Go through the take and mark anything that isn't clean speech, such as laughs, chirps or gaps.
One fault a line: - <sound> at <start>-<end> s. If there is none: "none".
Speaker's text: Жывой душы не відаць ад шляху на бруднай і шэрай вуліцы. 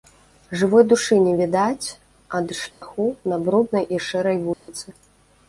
- dropout at 2.7-2.8 s
- dropout at 4.5-4.7 s